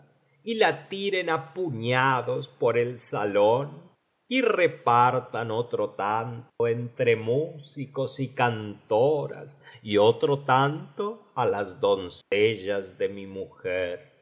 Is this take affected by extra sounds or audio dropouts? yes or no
yes